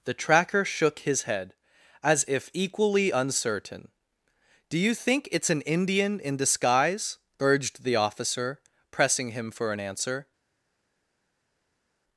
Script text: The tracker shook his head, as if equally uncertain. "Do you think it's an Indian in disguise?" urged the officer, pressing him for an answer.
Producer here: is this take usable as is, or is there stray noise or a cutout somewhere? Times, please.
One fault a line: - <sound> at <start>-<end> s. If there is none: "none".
none